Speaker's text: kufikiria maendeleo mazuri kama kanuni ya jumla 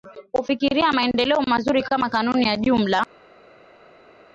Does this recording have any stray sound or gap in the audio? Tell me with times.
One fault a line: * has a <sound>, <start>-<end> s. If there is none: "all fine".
all fine